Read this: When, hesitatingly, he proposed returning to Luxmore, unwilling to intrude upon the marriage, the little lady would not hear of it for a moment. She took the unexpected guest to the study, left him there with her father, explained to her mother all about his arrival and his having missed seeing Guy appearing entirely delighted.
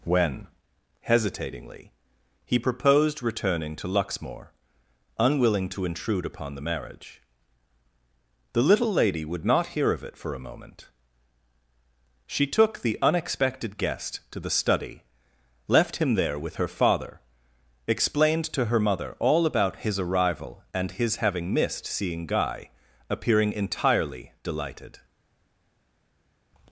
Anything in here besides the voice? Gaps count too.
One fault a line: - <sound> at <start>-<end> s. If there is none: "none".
none